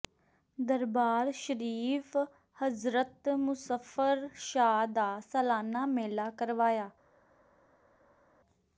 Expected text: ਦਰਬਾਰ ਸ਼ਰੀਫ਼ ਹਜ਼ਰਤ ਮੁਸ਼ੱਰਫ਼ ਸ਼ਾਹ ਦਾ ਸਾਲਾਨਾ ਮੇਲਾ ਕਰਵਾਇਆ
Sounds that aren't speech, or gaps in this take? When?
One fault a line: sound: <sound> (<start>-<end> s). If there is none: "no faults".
no faults